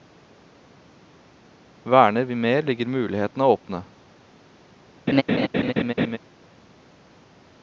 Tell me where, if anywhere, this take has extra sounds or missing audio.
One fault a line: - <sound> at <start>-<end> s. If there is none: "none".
- laugh at 5.1-6.2 s